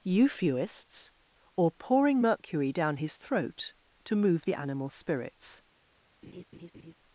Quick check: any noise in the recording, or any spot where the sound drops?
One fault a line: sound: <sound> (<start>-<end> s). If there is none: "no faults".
sound: laugh (6.2-6.9 s)